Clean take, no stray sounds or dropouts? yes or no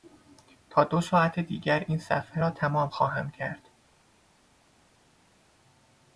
yes